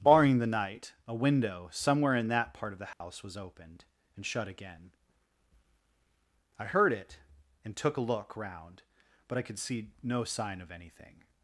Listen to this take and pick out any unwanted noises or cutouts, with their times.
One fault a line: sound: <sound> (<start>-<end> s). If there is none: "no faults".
sound: dropout (2.9-3.0 s)